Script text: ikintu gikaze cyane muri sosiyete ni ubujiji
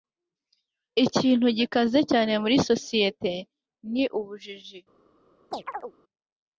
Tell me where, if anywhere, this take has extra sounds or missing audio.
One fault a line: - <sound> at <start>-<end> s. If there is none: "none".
- chirp at 5.5-5.9 s